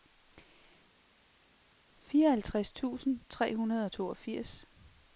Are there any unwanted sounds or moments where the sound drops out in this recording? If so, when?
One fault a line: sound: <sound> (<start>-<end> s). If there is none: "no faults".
no faults